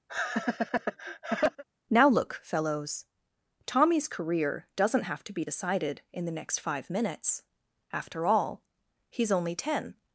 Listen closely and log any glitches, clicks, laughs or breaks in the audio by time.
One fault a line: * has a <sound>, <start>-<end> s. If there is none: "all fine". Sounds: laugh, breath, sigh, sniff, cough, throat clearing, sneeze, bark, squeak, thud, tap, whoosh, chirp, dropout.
* has a laugh, 0.1-1.6 s